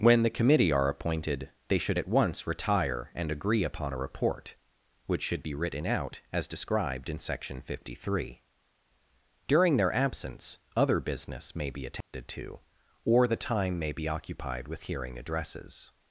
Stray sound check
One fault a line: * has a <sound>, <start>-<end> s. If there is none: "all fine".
* has a dropout, 12.0-12.1 s